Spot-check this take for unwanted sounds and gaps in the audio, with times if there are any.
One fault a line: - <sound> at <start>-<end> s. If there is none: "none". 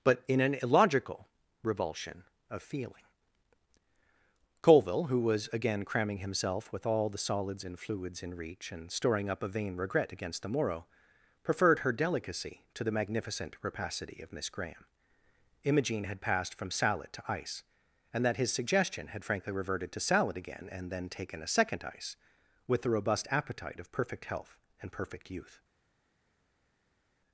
none